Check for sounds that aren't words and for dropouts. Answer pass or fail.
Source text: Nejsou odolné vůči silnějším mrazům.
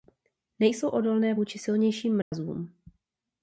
fail